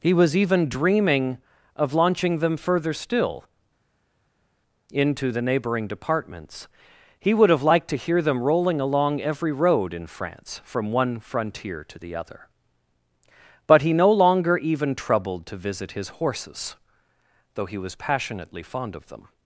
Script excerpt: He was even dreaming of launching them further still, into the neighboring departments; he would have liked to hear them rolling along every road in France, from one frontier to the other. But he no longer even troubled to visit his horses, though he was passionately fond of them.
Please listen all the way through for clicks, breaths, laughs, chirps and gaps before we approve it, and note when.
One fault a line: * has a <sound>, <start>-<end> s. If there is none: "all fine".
all fine